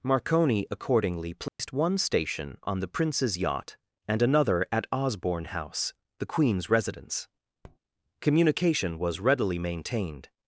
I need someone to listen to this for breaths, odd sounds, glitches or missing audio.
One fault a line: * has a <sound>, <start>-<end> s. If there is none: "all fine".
* has a dropout, 1.5-1.6 s
* has a tap, 7.6-7.8 s